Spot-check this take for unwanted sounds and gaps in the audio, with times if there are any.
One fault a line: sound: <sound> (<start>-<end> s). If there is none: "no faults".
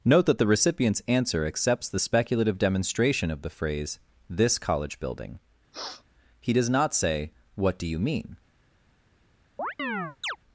sound: sniff (5.7-6.0 s)
sound: chirp (9.6-10.4 s)